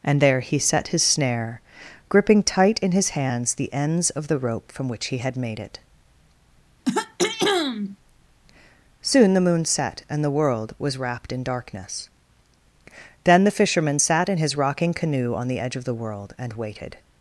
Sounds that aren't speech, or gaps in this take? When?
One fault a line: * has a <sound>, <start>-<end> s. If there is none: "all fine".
* has a throat clearing, 6.8-8.0 s